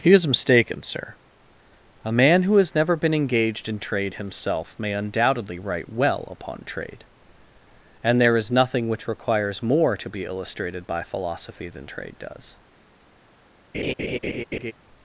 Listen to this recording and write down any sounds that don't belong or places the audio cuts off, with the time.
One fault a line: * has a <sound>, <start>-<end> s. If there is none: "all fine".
* has a laugh, 13.7-14.7 s